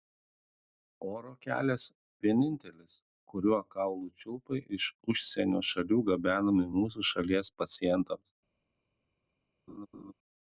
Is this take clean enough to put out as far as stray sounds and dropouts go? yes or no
no